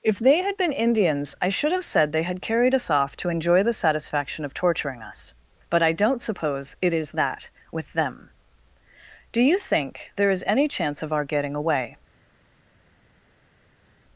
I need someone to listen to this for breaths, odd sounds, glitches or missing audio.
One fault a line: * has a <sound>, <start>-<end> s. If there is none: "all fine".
all fine